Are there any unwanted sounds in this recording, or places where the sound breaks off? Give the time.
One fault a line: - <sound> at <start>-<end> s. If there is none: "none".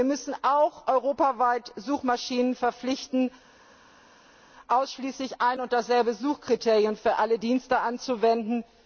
none